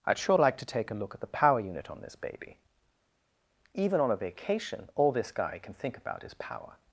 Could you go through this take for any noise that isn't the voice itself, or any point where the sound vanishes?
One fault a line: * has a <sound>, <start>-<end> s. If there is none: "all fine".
all fine